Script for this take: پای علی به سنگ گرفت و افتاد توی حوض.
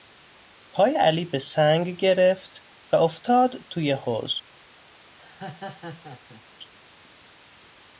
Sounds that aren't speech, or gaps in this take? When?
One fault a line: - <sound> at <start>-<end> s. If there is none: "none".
- laugh at 5.2-6.4 s